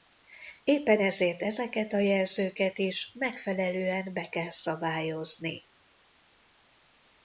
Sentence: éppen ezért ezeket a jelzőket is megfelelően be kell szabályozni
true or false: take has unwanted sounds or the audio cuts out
false